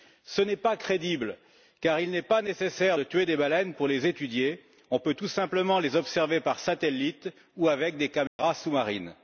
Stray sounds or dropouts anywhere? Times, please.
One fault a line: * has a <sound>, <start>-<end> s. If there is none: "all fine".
* has a dropout, 8.3-8.4 s